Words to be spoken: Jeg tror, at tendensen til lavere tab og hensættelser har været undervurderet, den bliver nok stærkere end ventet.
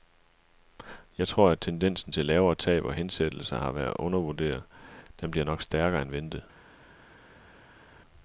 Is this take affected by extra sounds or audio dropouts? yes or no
no